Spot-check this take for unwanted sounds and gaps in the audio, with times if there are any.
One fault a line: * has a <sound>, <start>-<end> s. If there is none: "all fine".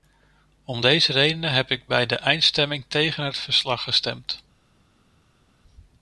all fine